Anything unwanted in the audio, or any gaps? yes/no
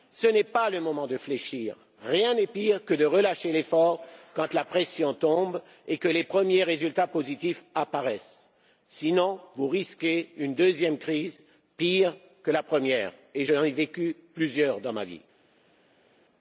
no